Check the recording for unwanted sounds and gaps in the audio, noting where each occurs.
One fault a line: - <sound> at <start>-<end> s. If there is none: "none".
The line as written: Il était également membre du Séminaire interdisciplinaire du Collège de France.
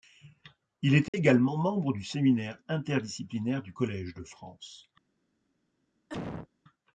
- dropout at 1.1-1.1 s
- cough at 6.1-6.5 s